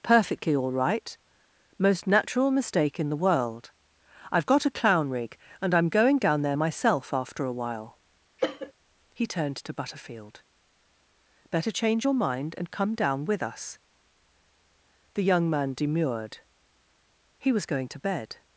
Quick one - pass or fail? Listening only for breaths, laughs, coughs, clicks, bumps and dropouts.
fail